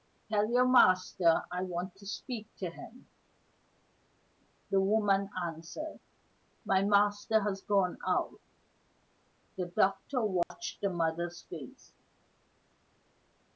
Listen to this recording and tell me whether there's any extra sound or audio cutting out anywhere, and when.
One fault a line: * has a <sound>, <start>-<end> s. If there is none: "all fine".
* has a dropout, 10.4-10.5 s